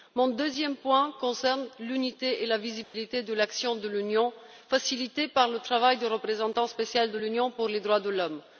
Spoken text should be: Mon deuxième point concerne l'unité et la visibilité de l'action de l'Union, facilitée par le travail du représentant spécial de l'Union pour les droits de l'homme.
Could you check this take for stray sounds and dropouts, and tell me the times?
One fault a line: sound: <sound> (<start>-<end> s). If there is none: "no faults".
sound: dropout (2.8-2.9 s)